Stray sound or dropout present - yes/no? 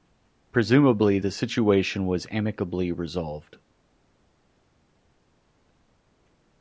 no